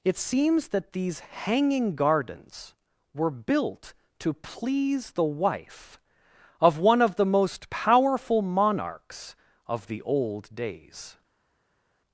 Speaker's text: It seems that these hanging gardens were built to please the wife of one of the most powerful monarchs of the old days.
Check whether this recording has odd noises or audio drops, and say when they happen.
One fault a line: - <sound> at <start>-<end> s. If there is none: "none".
none